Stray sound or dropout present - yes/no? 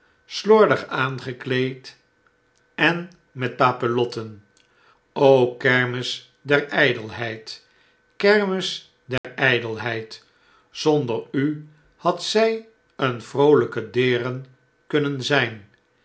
yes